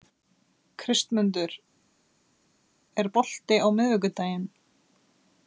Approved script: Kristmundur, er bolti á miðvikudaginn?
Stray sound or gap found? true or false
false